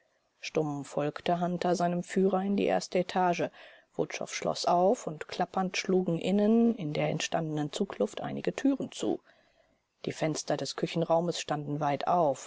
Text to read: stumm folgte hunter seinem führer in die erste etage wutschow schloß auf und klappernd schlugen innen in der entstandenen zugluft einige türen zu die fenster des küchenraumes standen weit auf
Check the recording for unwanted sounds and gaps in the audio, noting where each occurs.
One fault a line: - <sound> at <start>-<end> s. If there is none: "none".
none